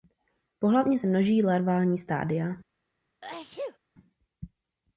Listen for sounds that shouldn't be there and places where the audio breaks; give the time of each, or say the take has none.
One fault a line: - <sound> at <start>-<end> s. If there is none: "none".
- sneeze at 3.2-3.8 s